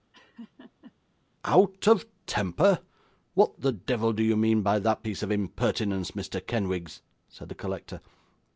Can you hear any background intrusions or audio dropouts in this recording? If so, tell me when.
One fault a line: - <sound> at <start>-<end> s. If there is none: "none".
- laugh at 0.1-0.9 s